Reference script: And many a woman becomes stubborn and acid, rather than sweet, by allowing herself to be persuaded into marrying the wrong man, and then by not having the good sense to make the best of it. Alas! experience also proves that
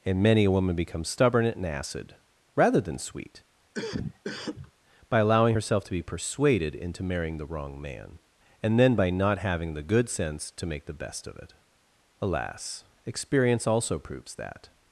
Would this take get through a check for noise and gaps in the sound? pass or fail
fail